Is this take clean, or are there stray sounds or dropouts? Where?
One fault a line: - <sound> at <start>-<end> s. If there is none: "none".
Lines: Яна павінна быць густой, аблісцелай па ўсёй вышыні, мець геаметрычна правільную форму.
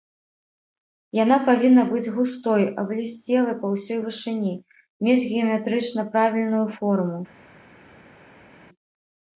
none